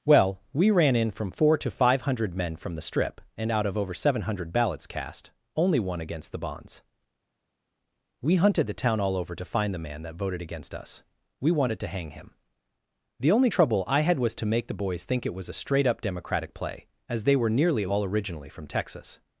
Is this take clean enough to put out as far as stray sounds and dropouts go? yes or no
yes